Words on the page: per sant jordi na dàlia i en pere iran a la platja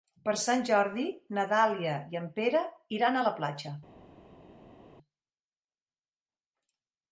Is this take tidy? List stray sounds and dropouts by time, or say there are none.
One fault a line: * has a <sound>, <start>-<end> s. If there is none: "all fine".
all fine